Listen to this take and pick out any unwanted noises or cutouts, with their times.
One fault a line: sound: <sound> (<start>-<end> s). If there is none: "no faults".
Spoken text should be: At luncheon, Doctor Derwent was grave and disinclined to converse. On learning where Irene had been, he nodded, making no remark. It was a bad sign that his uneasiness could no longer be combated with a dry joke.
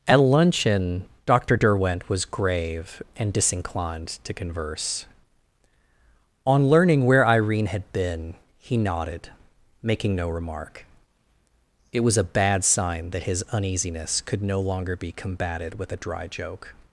no faults